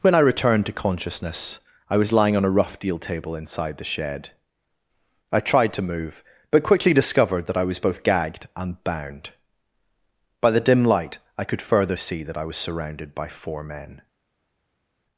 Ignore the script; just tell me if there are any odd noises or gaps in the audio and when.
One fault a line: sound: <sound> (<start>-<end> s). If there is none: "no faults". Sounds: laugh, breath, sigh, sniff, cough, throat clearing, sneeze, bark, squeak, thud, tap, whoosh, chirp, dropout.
no faults